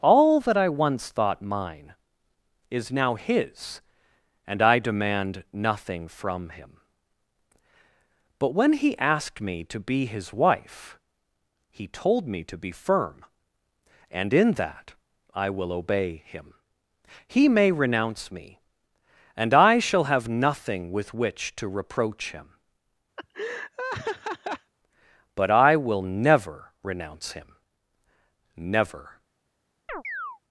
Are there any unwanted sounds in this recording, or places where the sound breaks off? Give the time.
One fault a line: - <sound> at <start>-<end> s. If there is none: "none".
- laugh at 23.2-24.7 s
- chirp at 29.9-30.4 s